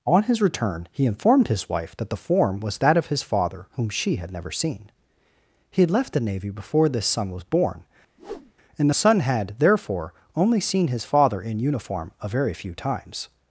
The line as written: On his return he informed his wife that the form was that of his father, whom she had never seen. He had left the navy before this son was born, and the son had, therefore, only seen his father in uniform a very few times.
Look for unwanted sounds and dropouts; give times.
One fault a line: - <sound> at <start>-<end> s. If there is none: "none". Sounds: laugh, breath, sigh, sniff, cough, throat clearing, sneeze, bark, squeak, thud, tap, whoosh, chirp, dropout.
- whoosh at 8.2-8.5 s